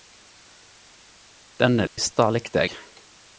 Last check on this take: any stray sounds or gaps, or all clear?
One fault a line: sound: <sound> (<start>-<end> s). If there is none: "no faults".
sound: dropout (1.9-2.0 s)